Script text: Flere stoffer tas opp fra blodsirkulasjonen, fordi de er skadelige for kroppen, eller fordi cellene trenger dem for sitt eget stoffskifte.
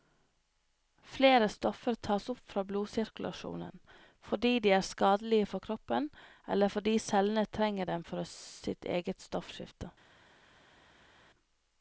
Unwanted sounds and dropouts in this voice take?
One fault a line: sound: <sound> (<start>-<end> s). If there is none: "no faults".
no faults